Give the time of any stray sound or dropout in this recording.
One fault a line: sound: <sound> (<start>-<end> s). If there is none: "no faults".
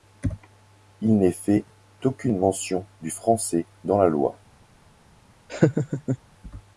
sound: laugh (5.5-6.2 s)